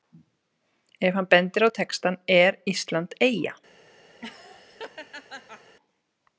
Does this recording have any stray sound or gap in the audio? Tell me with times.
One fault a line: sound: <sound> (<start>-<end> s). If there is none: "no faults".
sound: laugh (4.2-5.8 s)